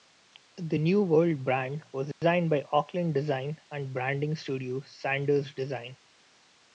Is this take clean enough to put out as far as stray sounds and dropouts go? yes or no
no